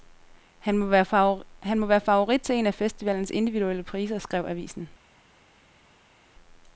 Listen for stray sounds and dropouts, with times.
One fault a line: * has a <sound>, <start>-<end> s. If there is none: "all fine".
all fine